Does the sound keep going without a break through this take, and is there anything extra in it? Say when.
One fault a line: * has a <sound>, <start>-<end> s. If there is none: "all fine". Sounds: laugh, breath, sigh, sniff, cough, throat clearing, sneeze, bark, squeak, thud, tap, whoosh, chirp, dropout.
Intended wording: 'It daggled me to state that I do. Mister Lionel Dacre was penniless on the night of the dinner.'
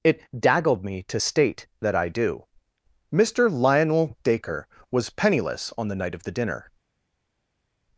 all fine